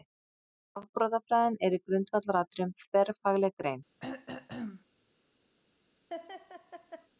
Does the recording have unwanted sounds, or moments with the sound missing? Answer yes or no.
yes